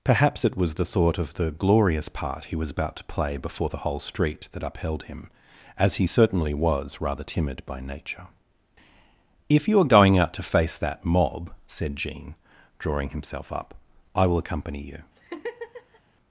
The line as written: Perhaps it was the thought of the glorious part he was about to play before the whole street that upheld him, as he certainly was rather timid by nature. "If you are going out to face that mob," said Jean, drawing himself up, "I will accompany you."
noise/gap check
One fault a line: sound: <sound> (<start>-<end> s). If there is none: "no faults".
sound: laugh (15.2-16.0 s)